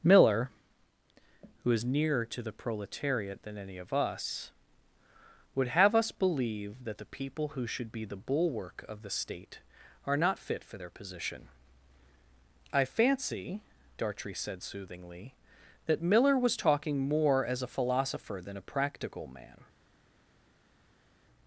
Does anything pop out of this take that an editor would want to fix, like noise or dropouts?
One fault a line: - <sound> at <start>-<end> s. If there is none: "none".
none